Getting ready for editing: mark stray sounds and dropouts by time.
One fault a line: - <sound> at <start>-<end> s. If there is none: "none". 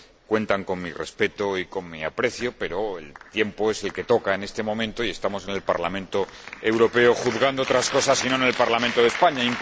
none